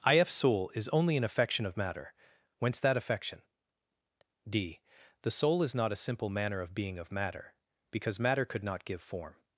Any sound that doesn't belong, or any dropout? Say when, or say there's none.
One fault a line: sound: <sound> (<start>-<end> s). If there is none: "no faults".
no faults